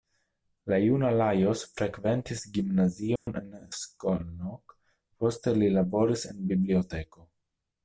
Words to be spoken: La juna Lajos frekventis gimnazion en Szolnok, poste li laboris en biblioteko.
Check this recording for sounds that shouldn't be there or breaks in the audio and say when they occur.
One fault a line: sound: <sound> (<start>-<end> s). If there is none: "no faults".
sound: dropout (3.2-3.3 s)